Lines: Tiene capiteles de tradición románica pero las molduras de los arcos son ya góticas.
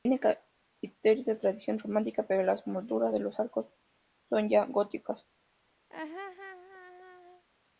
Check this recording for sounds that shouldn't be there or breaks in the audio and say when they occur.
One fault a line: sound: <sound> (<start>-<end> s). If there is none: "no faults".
sound: laugh (5.9-7.4 s)